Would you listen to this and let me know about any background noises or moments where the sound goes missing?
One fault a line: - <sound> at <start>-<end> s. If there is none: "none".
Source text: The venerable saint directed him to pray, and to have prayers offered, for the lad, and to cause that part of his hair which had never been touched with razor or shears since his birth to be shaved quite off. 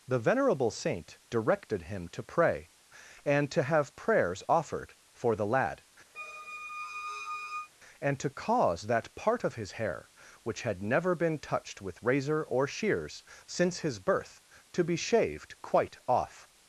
- squeak at 6.1-7.7 s